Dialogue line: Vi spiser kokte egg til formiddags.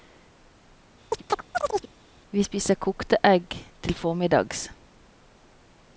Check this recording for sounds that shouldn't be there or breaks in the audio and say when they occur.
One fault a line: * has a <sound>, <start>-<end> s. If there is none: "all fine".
* has a chirp, 1.1-1.9 s